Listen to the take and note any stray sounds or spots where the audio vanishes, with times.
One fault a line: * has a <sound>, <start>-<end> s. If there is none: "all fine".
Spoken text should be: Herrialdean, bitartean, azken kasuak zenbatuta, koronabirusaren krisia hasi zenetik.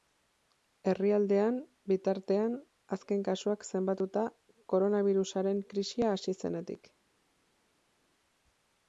all fine